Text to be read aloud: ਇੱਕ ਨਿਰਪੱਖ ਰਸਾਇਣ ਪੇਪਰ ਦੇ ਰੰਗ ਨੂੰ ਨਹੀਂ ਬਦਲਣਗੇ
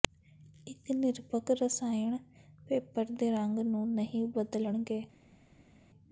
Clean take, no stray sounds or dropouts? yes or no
yes